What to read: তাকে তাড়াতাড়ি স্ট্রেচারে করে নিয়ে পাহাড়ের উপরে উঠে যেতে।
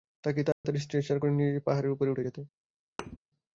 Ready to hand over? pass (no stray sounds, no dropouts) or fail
fail